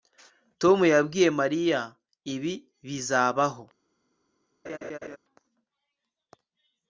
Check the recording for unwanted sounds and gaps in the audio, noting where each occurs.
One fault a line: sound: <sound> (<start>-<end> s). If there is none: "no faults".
sound: laugh (4.6-5.2 s)